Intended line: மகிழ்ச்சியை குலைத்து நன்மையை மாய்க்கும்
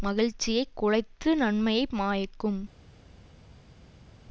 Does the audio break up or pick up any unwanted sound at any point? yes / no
no